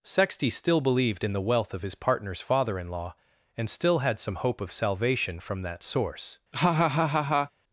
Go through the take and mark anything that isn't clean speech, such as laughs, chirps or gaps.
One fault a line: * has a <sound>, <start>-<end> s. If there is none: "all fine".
* has a laugh, 6.5-7.5 s